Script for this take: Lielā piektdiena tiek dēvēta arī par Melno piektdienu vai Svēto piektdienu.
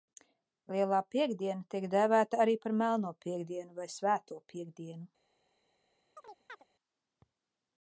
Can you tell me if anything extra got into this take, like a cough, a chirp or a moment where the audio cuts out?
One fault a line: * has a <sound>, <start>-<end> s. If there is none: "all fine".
* has a chirp, 6.2-6.7 s